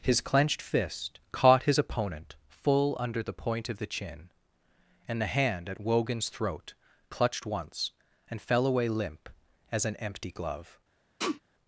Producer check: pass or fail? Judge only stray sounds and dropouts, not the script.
fail